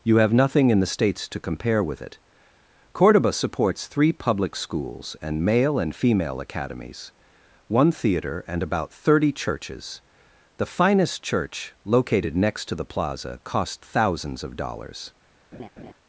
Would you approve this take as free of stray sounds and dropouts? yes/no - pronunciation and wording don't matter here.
no